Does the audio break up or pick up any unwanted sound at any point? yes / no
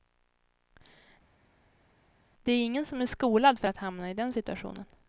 no